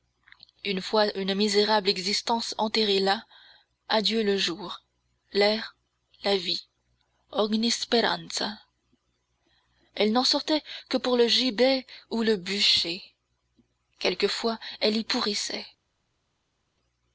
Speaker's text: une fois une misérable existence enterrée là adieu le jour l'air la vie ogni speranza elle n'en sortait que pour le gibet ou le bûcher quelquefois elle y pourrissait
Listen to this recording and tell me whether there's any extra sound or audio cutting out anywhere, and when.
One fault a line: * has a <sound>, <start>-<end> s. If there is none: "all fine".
all fine